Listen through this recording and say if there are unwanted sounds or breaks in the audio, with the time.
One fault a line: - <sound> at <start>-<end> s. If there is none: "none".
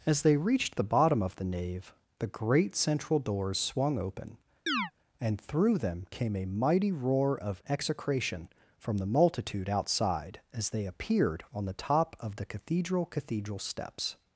- chirp at 4.7-4.9 s